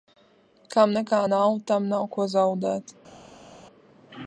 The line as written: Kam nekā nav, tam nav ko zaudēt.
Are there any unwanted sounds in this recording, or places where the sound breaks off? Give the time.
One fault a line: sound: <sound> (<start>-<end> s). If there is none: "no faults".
no faults